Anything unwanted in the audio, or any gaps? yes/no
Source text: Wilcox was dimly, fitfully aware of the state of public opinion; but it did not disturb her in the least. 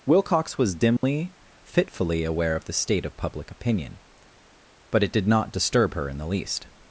yes